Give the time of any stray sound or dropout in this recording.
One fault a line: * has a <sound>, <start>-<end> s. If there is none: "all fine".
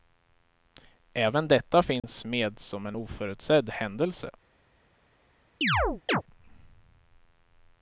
* has a dropout, 2.0-2.0 s
* has a chirp, 5.6-6.2 s